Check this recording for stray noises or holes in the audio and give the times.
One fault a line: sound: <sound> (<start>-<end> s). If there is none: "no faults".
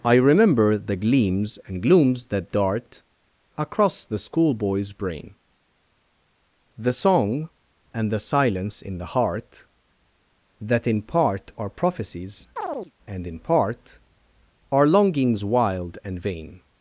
sound: chirp (12.6-12.9 s)